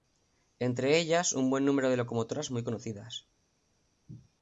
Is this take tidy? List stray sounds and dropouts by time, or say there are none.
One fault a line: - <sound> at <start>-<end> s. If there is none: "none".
none